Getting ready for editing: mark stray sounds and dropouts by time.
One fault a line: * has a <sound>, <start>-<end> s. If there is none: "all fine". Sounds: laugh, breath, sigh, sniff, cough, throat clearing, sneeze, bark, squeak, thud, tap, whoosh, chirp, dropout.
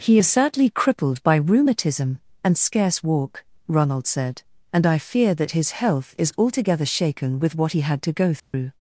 * has a dropout, 8.4-8.5 s